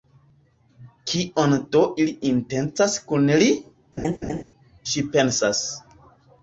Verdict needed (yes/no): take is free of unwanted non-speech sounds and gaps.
no